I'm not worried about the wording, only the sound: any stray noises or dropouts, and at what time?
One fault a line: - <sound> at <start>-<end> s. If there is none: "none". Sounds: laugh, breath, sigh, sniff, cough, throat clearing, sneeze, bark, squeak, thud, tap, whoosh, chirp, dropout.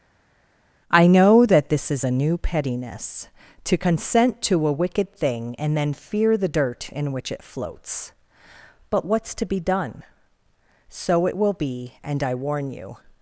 none